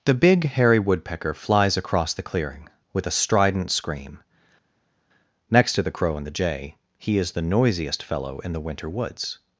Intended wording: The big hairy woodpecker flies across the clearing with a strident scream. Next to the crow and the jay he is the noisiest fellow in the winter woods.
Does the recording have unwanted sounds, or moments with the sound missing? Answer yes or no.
no